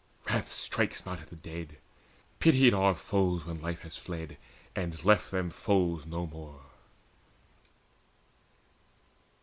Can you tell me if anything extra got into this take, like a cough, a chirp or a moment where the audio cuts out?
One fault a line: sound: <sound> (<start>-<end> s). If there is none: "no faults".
no faults